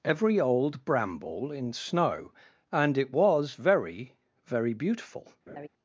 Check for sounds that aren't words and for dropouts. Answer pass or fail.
fail